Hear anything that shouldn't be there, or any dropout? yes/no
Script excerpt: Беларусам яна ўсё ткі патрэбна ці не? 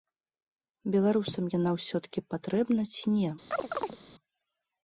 yes